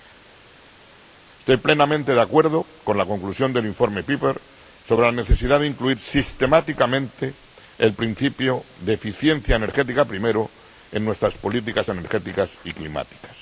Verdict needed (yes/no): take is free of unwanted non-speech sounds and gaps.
yes